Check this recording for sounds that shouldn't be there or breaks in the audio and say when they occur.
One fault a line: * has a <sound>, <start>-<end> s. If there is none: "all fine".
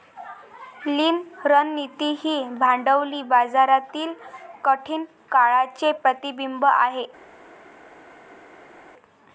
all fine